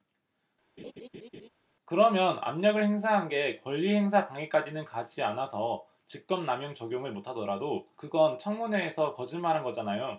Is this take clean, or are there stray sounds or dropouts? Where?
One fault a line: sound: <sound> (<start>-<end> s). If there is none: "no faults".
sound: laugh (0.8-1.5 s)